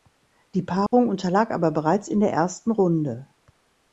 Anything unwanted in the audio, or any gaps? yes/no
yes